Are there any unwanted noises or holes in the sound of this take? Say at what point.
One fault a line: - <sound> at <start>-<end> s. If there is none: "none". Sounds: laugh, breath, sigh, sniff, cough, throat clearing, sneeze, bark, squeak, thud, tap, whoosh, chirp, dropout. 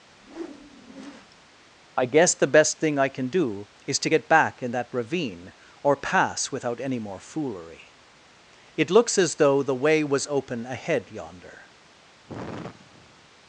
- whoosh at 0.1-1.5 s
- sigh at 12.3-13.3 s